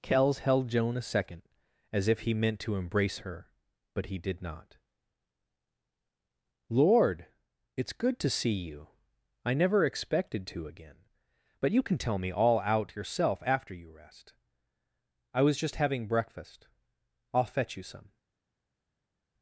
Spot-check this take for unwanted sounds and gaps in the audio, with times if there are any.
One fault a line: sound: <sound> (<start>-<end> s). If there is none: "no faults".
no faults